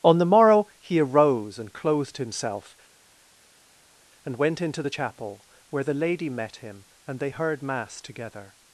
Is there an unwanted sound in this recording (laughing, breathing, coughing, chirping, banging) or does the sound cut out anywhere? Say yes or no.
no